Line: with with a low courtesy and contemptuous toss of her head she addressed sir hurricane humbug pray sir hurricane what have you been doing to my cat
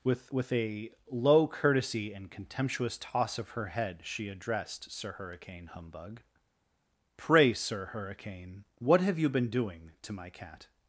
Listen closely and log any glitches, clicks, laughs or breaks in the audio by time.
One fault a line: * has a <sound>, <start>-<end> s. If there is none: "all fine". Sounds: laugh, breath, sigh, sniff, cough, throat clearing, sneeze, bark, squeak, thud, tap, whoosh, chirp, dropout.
all fine